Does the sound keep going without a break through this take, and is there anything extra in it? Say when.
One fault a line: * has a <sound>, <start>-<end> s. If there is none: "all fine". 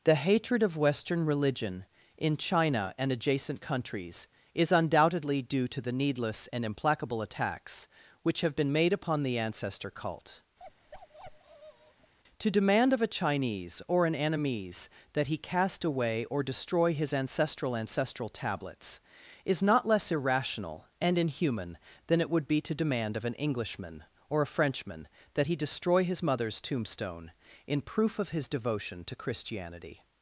* has a bark, 10.6-12.1 s